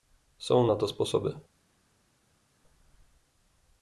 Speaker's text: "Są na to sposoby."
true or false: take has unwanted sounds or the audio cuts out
false